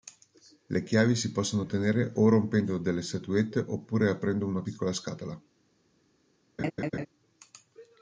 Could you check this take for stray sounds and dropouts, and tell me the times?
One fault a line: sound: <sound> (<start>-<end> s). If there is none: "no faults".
sound: laugh (6.6-7.1 s)